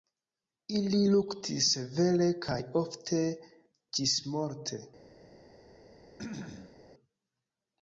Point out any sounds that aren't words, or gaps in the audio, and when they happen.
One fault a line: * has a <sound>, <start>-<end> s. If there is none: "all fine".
* has a throat clearing, 6.2-6.8 s